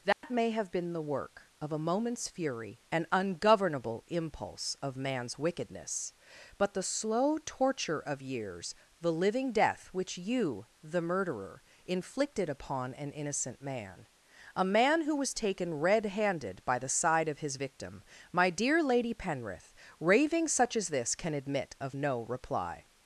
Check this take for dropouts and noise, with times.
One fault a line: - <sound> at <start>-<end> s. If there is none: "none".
- dropout at 0.1-0.2 s